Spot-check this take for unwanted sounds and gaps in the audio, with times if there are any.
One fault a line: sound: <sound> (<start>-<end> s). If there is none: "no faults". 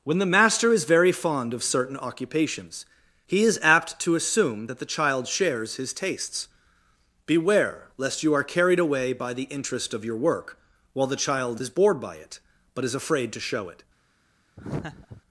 sound: laugh (14.6-15.2 s)